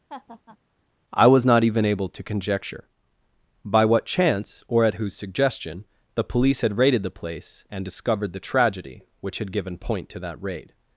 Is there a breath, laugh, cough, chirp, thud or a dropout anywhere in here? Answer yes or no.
yes